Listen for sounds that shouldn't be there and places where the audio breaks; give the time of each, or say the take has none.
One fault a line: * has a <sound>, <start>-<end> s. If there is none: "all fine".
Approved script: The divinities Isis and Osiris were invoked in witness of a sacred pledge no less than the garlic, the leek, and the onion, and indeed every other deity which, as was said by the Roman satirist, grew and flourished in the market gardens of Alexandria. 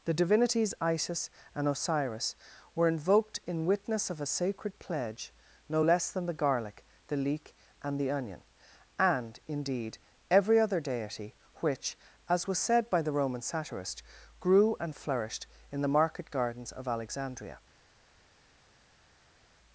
all fine